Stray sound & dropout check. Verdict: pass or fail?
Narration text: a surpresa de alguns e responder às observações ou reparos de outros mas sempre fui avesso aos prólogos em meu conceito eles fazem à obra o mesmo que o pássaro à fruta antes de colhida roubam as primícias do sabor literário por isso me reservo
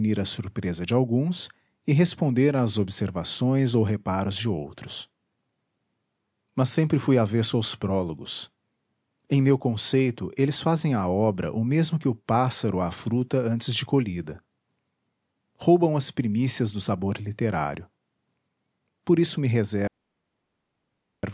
pass